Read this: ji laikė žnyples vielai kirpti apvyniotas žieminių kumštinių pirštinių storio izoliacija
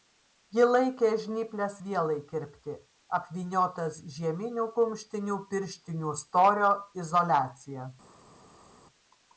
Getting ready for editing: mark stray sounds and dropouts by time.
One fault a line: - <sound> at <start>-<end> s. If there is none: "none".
none